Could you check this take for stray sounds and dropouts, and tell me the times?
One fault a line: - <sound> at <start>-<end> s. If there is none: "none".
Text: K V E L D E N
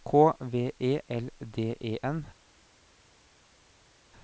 none